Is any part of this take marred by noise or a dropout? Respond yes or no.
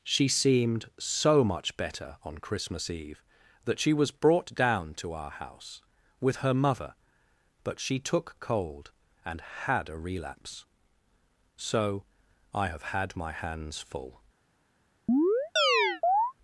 yes